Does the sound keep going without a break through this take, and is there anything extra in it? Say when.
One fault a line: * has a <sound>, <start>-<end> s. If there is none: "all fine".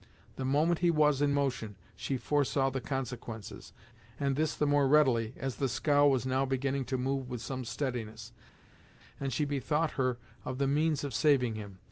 all fine